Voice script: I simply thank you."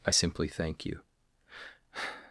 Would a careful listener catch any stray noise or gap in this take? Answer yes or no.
no